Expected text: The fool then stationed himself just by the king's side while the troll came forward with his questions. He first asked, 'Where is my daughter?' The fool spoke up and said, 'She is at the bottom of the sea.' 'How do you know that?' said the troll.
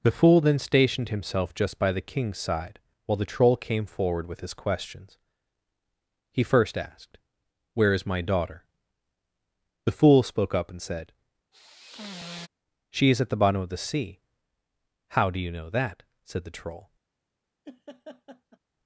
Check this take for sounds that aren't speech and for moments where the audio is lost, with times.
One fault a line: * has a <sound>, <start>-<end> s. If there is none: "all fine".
* has a sigh, 11.5-12.5 s
* has a laugh, 17.6-18.6 s